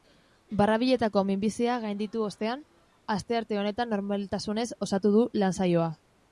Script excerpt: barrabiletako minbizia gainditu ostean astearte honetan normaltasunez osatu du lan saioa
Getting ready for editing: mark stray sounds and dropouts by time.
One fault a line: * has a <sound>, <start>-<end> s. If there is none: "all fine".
all fine